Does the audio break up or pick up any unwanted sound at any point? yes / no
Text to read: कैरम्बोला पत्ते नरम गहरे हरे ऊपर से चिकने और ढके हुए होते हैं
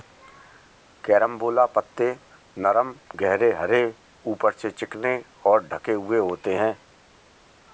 no